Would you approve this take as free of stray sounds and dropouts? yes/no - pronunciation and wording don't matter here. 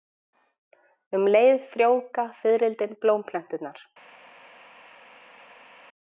yes